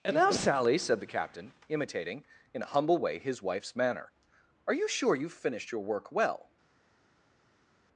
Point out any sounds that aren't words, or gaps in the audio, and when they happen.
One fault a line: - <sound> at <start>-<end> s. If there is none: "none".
none